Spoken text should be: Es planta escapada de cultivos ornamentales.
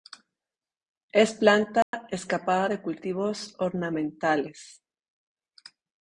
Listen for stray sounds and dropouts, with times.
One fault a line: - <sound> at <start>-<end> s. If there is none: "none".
- dropout at 1.8-1.9 s